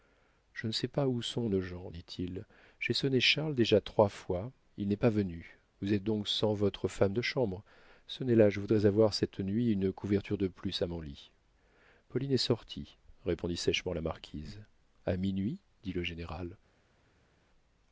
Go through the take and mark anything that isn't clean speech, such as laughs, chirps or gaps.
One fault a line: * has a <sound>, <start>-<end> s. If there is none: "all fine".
all fine